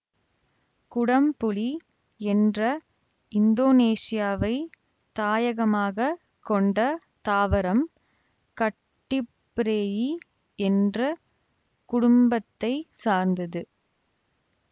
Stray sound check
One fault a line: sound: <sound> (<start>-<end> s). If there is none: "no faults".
no faults